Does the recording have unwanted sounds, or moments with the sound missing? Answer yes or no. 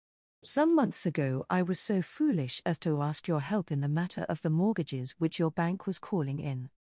no